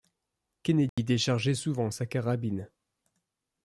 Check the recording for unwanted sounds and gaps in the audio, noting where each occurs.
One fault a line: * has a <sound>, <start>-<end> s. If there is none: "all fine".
* has a dropout, 0.9-1.0 s